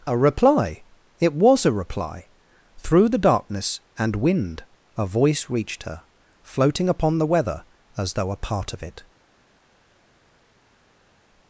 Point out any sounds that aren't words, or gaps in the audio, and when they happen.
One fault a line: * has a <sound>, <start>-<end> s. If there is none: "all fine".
all fine